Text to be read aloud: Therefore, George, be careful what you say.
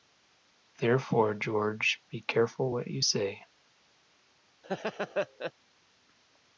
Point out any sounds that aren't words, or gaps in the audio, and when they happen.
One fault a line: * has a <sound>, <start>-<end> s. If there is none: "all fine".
* has a laugh, 4.6-5.5 s